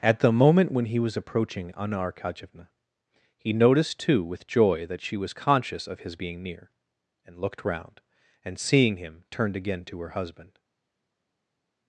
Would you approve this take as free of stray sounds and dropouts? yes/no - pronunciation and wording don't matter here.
yes